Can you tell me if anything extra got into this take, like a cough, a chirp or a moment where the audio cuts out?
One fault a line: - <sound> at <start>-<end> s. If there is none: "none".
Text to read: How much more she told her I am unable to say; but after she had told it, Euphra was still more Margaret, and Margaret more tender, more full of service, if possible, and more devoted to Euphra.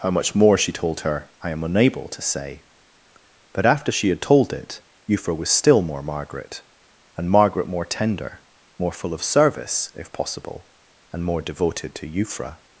none